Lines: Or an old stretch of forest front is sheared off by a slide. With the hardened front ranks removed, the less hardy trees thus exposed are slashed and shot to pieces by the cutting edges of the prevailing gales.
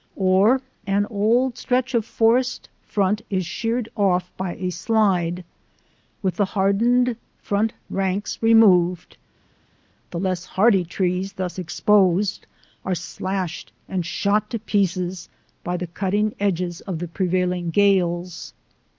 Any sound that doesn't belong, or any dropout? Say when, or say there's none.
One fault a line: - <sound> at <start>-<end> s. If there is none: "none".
none